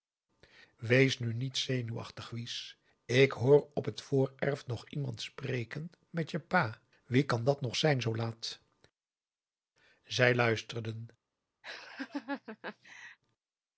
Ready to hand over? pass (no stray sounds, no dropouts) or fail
fail